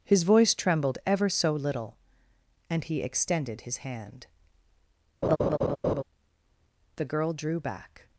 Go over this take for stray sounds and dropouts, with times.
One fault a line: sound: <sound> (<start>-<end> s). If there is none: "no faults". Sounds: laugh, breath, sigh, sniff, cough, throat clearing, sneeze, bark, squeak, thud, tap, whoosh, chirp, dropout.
sound: laugh (5.2-6.0 s)